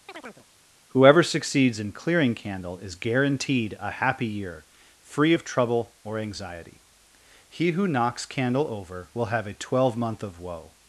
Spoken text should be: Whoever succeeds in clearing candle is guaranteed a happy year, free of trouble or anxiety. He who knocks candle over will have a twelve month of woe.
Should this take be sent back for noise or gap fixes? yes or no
yes